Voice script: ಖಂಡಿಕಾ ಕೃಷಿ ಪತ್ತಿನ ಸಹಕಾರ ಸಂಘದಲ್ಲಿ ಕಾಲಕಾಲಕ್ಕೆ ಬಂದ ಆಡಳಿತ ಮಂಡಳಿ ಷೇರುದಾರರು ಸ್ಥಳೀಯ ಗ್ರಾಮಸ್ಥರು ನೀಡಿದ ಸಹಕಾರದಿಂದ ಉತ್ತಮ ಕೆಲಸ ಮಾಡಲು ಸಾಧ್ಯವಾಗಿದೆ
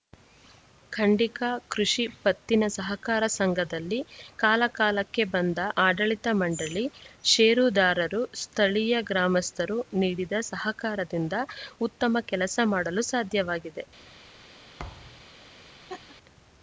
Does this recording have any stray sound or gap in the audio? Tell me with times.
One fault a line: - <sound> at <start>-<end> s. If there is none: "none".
- thud at 14.8-15.3 s
- laugh at 15.9-16.2 s